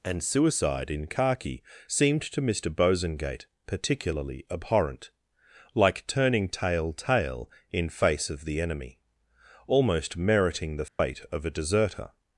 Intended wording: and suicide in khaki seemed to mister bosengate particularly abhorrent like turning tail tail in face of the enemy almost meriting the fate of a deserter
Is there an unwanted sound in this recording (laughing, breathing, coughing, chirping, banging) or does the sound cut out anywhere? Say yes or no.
yes